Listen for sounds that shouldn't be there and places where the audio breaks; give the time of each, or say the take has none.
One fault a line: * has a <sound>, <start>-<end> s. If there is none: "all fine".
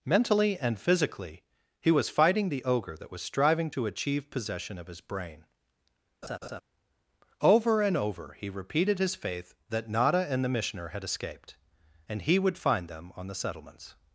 * has a laugh, 6.2-6.6 s